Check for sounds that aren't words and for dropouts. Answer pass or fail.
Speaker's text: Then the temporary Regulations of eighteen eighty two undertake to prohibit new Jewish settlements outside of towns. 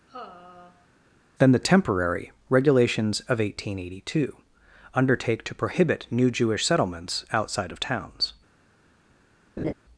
fail